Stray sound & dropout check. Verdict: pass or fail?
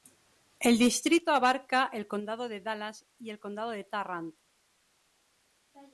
pass